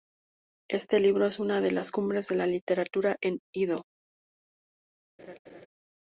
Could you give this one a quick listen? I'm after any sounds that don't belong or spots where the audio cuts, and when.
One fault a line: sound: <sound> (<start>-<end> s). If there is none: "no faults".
sound: laugh (5.2-5.7 s)